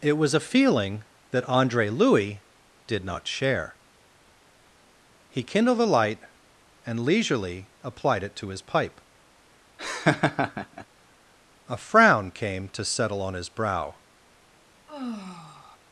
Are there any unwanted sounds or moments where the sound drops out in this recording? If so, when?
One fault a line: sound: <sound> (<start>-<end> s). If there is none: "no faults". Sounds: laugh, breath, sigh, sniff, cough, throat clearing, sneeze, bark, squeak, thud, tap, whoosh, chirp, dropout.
sound: laugh (9.8-10.9 s)
sound: sigh (14.9-15.8 s)